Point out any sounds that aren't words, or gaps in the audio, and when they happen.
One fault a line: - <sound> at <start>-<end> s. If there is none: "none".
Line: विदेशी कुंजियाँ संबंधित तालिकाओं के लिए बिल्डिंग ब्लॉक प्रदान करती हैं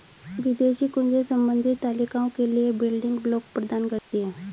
- dropout at 4.0-4.1 s